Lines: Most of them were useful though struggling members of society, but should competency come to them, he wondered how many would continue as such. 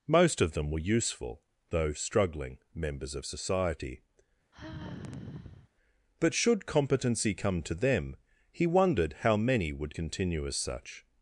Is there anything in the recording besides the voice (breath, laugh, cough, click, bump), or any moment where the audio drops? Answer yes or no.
yes